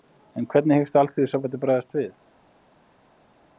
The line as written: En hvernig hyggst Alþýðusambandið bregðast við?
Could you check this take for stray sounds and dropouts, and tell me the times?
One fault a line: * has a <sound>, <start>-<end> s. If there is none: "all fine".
all fine